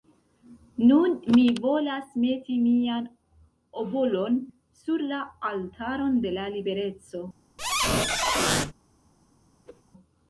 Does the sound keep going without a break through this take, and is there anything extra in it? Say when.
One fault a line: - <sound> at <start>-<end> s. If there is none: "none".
- squeak at 7.6-8.7 s
- whoosh at 9.6-9.8 s